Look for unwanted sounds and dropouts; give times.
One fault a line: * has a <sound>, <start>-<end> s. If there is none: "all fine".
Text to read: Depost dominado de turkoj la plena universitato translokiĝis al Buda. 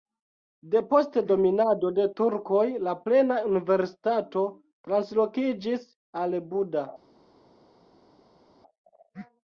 all fine